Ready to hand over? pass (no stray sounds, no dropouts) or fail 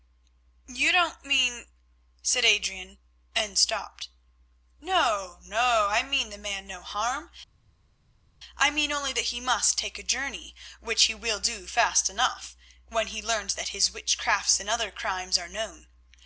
pass